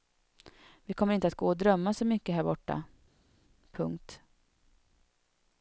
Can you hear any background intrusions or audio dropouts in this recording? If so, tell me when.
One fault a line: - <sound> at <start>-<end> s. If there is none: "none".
none